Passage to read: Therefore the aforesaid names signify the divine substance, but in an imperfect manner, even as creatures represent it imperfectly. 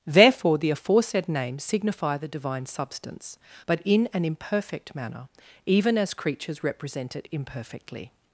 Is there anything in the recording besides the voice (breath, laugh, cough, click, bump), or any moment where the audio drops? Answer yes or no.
no